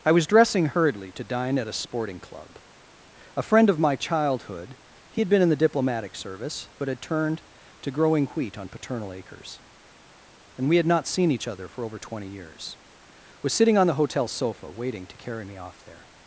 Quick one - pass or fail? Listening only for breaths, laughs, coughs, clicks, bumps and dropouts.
pass